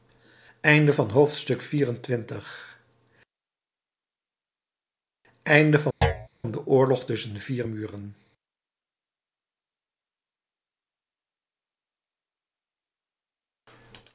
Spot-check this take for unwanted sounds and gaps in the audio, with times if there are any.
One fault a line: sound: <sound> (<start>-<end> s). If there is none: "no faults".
sound: thud (6.0-6.3 s)